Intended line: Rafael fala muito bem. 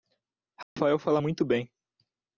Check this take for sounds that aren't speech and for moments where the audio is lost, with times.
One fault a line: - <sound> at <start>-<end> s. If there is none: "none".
- dropout at 0.6-0.8 s